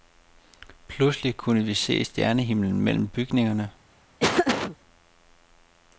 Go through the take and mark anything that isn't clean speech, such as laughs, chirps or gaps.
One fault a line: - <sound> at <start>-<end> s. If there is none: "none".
- laugh at 4.2-4.8 s